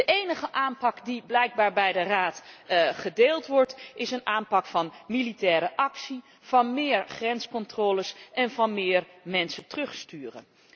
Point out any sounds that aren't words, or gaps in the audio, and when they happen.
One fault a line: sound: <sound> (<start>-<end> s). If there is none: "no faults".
no faults